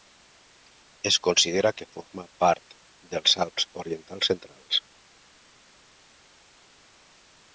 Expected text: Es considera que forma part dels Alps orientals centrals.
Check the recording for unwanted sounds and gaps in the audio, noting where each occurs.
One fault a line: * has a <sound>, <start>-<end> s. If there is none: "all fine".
all fine